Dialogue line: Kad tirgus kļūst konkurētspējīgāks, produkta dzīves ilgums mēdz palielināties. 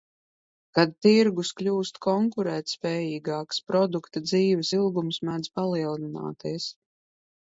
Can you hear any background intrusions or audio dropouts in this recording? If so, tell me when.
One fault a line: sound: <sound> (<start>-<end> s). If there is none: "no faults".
no faults